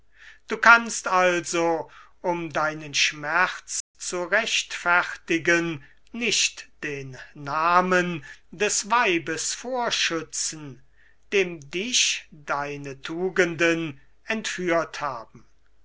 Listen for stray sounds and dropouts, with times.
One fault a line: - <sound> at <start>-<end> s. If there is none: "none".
- dropout at 3.8-3.9 s